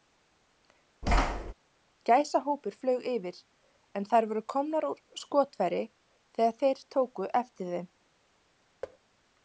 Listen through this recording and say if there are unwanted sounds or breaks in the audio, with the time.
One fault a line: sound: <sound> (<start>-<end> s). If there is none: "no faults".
sound: thud (1.0-1.5 s)
sound: thud (8.8-9.0 s)